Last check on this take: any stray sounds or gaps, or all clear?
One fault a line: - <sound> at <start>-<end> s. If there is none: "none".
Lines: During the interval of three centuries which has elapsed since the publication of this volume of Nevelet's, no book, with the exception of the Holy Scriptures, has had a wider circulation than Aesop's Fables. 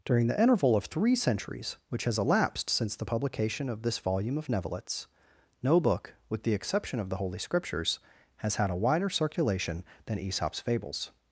none